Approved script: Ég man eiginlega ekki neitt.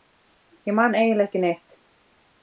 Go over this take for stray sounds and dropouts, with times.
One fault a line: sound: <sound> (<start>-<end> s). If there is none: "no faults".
no faults